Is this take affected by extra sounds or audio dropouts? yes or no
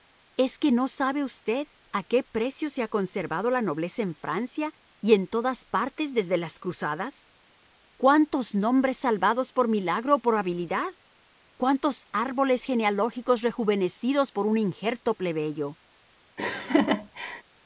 yes